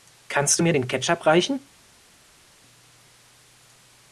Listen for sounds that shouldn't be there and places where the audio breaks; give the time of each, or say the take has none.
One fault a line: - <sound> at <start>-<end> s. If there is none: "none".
none